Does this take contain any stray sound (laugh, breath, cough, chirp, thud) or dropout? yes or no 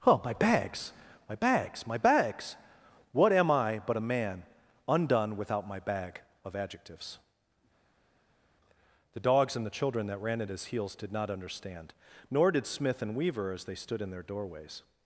no